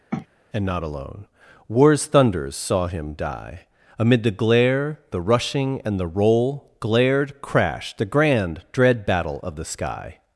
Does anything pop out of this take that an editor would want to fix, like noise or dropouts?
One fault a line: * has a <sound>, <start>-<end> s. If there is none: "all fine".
* has a sniff, 0.1-0.3 s